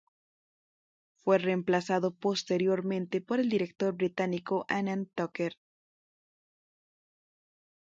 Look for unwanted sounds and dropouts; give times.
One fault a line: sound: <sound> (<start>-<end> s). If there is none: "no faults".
no faults